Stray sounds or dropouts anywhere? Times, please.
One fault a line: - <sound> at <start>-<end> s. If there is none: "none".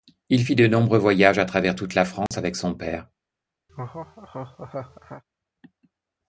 - dropout at 2.3-2.3 s
- laugh at 3.7-5.2 s